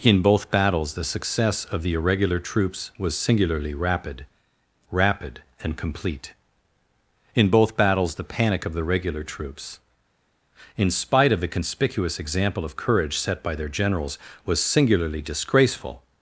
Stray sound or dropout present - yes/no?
no